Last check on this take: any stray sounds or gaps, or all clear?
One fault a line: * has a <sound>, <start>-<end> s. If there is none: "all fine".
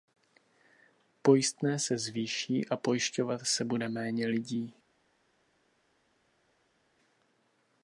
all fine